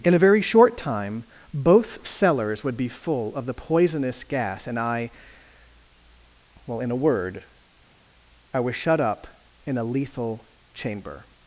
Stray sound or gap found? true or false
false